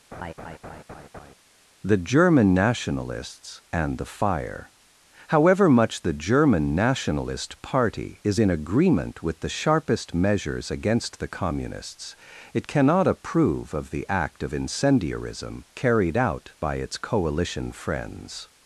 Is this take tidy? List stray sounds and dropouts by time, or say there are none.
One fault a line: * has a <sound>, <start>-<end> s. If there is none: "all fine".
* has a laugh, 0.1-1.3 s